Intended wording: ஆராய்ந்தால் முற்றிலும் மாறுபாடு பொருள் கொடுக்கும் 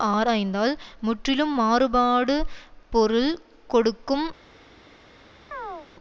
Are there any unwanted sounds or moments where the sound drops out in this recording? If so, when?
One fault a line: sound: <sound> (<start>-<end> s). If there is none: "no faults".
sound: chirp (5.5-5.9 s)